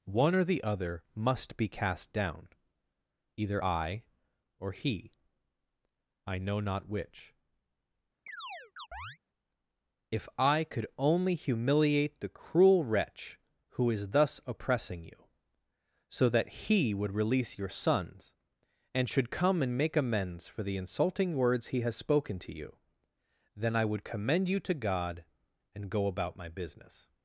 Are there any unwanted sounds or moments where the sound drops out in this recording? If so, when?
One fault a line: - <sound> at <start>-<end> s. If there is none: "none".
- chirp at 8.3-9.2 s